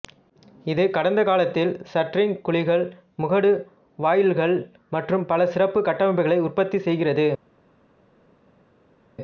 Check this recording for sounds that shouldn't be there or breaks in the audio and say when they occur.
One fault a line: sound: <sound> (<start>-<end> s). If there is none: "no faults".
no faults